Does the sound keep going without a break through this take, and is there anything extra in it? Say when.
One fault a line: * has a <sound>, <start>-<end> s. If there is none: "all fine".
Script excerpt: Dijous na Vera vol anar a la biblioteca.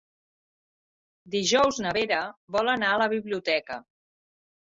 all fine